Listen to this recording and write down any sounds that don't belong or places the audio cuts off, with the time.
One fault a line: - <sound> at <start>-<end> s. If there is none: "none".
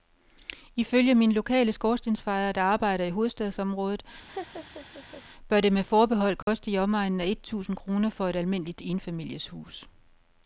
- laugh at 4.3-5.2 s
- dropout at 6.4-6.5 s